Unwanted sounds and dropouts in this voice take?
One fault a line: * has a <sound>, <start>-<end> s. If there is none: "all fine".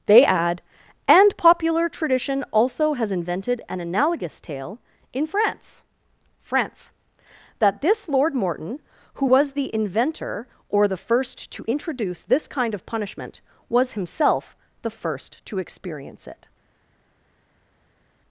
all fine